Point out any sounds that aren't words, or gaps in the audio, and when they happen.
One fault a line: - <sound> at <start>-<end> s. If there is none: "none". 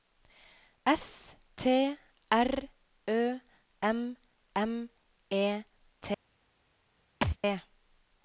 - thud at 7.2-7.4 s